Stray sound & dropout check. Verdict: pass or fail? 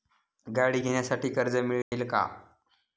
fail